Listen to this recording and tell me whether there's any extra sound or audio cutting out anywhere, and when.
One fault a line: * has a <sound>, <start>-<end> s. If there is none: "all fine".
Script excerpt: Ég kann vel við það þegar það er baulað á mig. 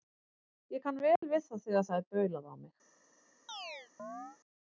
* has a dropout, 1.2-1.2 s
* has a chirp, 3.5-4.4 s